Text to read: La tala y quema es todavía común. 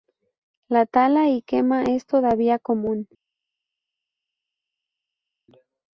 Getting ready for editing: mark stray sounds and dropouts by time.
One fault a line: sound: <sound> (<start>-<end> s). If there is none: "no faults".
no faults